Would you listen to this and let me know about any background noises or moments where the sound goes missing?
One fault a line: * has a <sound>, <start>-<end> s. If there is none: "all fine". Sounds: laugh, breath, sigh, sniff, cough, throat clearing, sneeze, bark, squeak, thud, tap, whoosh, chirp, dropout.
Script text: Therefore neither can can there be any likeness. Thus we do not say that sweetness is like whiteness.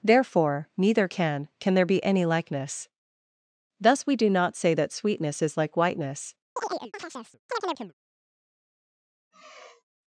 * has a chirp, 6.6-7.9 s
* has a sigh, 9.3-9.8 s